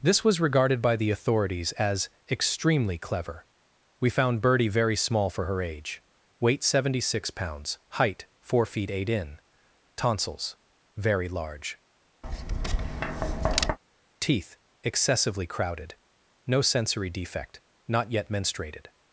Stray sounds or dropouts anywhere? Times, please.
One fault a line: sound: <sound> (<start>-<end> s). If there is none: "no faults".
sound: tap (12.2-13.8 s)